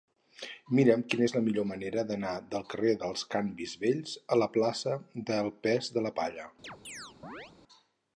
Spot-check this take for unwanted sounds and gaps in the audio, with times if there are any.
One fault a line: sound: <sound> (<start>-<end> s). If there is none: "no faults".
sound: chirp (6.6-7.5 s)